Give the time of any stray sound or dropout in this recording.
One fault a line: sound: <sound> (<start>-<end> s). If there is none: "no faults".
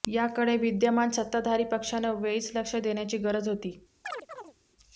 sound: chirp (4.0-4.5 s)